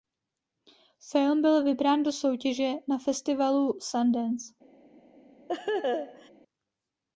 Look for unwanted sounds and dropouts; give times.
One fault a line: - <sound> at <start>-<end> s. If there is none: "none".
- laugh at 5.5-6.3 s